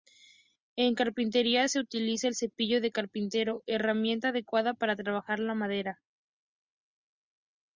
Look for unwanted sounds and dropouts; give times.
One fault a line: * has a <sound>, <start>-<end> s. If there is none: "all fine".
all fine